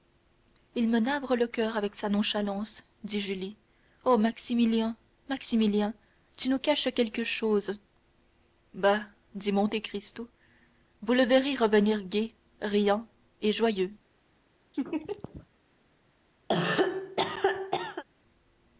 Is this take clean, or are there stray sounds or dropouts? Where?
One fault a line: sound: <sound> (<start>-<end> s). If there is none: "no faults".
sound: laugh (14.7-15.5 s)
sound: cough (16.5-18.0 s)